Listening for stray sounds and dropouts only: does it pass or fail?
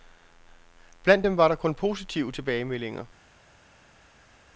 pass